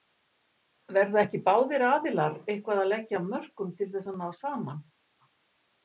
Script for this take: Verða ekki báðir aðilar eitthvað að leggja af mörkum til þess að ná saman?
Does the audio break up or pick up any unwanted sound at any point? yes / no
no